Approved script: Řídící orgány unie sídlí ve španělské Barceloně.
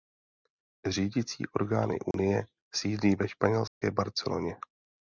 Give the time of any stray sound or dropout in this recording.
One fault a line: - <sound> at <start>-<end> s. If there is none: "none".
- dropout at 2.1-2.1 s
- dropout at 3.7-3.8 s